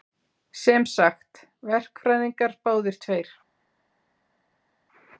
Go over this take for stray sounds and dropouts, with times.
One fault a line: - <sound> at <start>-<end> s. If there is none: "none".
none